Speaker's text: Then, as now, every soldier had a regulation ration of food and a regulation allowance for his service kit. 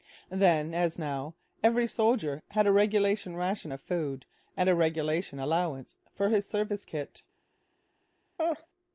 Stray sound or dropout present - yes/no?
yes